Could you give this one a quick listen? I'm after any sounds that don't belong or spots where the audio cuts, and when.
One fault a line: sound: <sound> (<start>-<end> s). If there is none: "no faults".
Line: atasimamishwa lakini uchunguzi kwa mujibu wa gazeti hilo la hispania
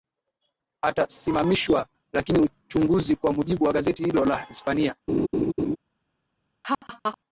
sound: laugh (5.1-5.8 s)
sound: laugh (6.6-7.2 s)